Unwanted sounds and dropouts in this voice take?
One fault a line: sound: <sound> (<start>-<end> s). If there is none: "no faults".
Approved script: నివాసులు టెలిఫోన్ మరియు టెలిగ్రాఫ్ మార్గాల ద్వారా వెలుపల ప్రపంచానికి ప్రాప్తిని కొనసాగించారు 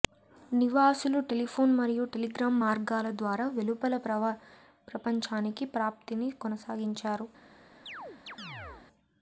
sound: chirp (7.9-8.9 s)